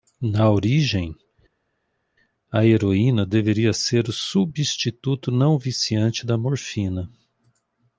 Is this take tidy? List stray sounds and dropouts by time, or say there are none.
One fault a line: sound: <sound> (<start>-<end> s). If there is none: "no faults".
no faults